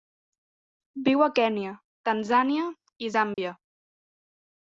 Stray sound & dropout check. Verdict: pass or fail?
fail